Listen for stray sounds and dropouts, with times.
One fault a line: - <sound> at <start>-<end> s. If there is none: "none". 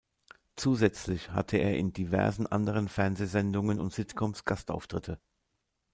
none